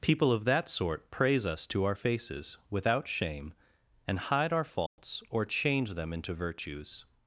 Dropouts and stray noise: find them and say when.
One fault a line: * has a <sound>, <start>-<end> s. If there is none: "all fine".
* has a dropout, 4.9-5.0 s